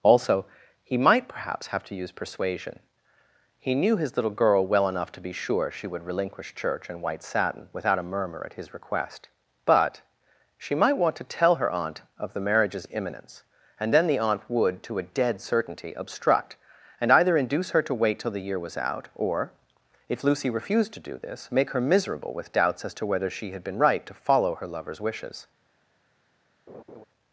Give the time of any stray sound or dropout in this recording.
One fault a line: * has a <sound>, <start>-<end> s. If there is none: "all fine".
* has a laugh, 26.7-27.0 s